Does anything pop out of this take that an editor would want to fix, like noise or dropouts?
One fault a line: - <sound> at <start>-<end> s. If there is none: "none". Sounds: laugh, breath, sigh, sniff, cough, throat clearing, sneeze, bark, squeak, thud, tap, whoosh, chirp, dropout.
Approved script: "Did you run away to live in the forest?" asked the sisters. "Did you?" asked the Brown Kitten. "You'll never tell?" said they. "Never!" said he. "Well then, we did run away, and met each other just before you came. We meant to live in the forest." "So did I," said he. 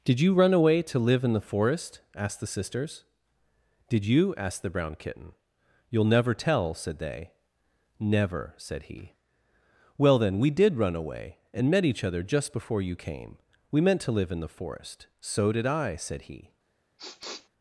- sniff at 17.0-17.5 s